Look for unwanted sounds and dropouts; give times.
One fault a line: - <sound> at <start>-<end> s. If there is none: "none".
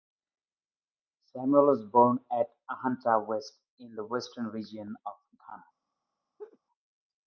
- laugh at 6.4-6.6 s